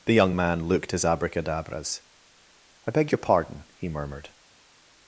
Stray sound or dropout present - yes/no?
no